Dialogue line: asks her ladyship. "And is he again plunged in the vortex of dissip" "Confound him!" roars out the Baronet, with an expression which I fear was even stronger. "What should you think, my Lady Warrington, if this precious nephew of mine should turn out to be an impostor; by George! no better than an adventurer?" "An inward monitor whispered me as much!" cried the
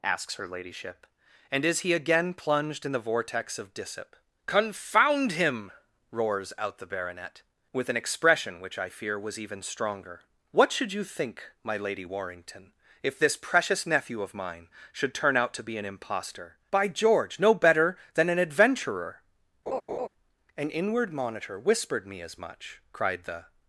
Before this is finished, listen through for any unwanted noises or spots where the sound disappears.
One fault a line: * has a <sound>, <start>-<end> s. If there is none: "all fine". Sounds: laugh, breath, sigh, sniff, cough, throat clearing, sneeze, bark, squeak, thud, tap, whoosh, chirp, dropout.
* has a laugh, 19.7-20.1 s